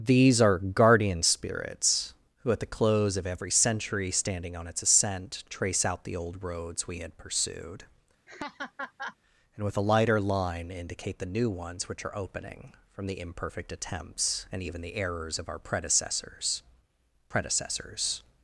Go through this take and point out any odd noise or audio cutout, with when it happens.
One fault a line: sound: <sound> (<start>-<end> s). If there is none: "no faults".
sound: laugh (8.3-9.2 s)